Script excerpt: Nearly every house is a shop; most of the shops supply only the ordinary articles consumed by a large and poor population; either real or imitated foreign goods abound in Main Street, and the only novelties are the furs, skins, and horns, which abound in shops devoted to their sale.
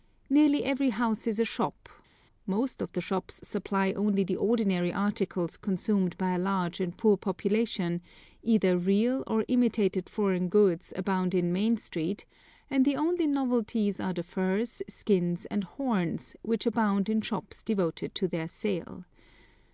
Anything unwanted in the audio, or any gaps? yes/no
no